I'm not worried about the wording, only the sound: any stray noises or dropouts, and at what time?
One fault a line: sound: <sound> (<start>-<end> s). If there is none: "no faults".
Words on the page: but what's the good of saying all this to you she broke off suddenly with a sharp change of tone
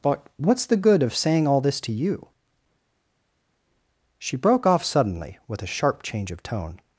no faults